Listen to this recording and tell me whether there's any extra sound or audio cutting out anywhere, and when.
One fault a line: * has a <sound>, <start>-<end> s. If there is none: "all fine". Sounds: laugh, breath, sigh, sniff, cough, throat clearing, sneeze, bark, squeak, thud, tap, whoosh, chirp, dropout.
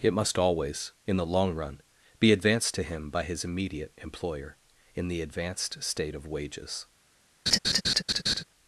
* has a laugh, 7.5-8.4 s